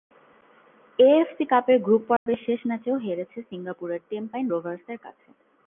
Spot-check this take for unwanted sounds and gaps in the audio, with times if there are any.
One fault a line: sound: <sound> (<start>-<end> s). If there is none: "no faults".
sound: dropout (2.2-2.3 s)